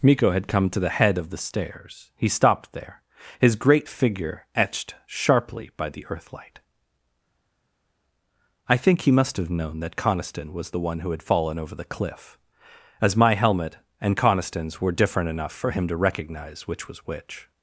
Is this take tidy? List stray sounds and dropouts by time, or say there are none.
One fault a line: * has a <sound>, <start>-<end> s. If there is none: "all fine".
all fine